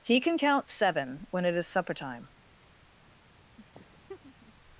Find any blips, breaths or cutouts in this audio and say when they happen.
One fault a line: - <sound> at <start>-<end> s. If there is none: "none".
- laugh at 3.6-4.5 s